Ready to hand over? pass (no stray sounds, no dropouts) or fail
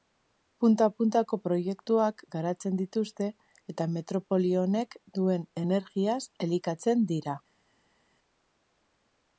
pass